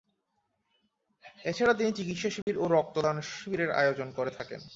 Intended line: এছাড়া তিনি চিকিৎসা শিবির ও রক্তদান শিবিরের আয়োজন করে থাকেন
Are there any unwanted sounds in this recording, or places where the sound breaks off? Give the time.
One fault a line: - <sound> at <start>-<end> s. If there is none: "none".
- dropout at 2.4-2.5 s